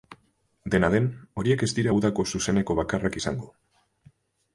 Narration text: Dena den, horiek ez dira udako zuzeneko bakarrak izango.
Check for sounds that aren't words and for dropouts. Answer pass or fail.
pass